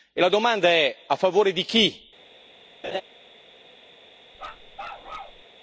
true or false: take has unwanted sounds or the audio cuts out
true